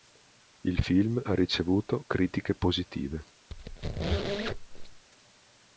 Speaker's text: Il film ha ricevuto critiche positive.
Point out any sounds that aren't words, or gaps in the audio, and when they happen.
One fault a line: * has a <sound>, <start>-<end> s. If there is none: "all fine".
* has a squeak, 3.5-5.0 s